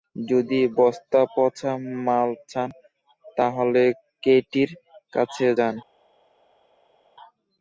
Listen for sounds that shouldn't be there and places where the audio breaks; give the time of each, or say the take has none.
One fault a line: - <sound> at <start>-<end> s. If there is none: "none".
none